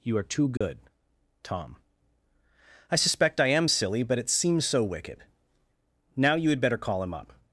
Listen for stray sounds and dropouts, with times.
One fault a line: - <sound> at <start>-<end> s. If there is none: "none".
- dropout at 0.6-0.6 s